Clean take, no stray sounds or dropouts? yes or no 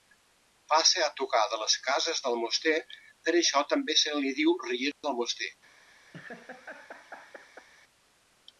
no